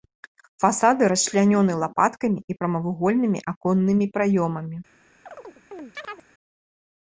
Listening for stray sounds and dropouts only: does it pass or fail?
fail